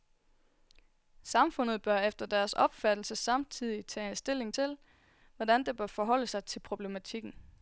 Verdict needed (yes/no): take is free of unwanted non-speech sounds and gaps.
yes